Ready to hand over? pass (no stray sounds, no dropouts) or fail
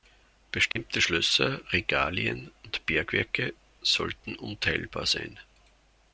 fail